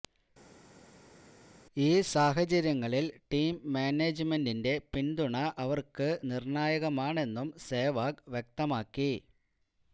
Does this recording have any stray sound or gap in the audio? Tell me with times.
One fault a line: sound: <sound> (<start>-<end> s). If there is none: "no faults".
no faults